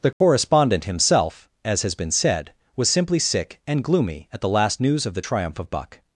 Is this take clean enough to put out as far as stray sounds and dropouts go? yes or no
no